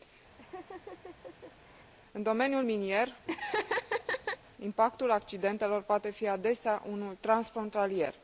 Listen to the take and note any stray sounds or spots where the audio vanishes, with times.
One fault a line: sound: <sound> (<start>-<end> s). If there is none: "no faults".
sound: laugh (0.4-1.9 s)
sound: laugh (3.3-4.4 s)